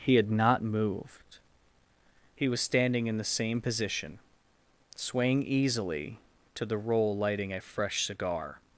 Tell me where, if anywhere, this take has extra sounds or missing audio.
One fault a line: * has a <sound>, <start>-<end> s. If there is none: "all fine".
all fine